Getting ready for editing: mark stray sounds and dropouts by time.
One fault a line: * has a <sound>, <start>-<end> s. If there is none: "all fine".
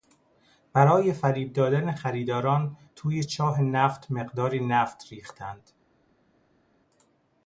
all fine